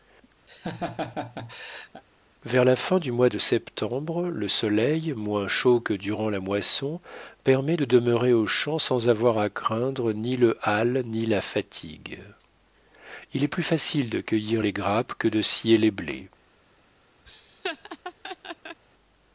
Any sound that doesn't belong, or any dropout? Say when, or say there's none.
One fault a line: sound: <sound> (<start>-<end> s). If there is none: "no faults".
sound: laugh (0.5-2.0 s)
sound: laugh (17.3-18.8 s)